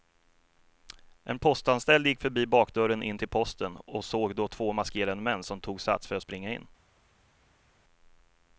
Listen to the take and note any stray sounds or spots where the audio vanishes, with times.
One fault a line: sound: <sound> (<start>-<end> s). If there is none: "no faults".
no faults